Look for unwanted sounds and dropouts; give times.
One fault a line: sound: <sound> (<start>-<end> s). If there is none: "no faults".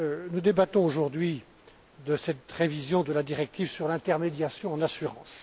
no faults